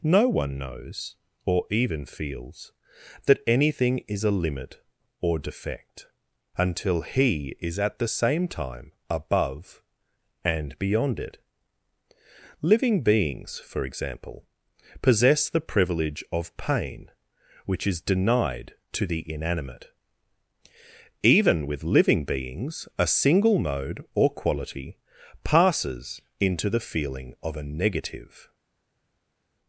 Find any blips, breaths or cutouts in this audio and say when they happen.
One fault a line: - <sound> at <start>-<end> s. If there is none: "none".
none